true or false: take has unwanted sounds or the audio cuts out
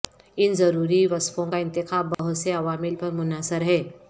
true